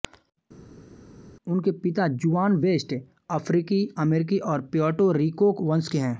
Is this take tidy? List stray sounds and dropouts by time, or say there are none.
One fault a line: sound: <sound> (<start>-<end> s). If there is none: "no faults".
no faults